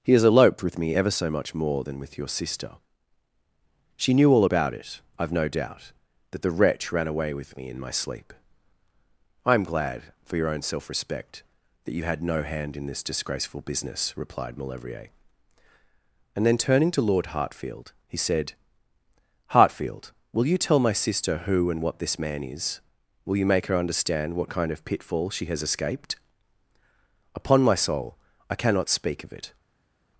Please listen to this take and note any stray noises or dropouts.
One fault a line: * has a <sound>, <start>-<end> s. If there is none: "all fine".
all fine